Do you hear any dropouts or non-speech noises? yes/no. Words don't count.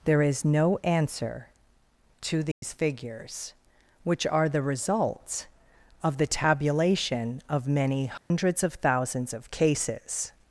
yes